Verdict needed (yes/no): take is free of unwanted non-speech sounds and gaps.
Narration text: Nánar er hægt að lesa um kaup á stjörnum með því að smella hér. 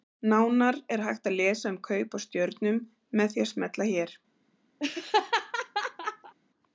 no